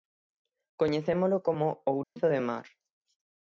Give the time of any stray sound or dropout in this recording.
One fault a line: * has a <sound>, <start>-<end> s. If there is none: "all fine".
* has a dropout, 2.0-2.2 s